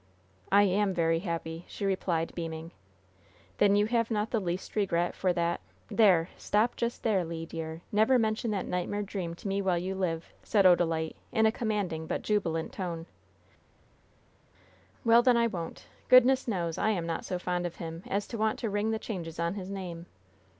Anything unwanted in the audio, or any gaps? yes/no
no